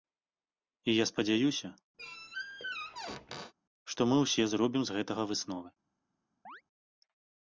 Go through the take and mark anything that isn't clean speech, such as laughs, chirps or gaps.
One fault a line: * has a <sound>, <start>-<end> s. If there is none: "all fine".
* has a squeak, 2.0-3.5 s
* has a chirp, 6.5-6.6 s